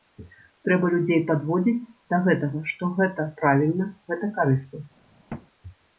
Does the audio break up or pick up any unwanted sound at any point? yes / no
yes